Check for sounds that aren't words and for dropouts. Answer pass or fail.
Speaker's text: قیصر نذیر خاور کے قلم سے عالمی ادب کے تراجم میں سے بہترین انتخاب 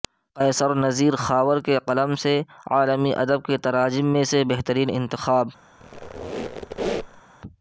fail